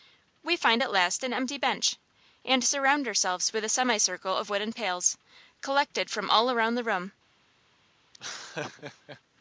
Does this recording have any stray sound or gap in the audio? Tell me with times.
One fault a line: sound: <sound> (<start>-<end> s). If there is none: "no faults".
sound: laugh (8.1-9.2 s)